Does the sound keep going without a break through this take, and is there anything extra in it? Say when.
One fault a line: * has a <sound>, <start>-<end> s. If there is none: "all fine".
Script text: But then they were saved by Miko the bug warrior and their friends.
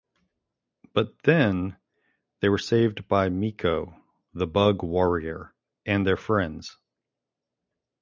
all fine